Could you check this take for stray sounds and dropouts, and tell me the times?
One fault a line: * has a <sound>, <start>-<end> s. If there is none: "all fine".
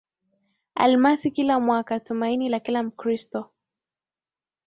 all fine